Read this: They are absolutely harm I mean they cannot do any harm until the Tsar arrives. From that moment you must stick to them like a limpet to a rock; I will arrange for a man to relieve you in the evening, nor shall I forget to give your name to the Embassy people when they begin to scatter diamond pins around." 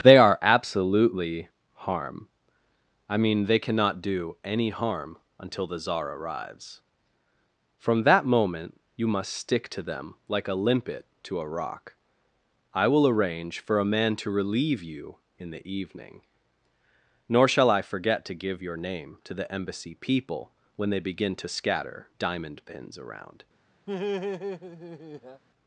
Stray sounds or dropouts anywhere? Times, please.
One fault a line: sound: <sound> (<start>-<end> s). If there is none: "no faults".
sound: laugh (23.9-25.4 s)